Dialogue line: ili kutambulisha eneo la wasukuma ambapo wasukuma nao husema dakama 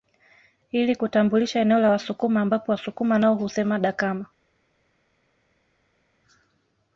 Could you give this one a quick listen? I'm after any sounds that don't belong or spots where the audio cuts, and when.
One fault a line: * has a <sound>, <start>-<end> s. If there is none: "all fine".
all fine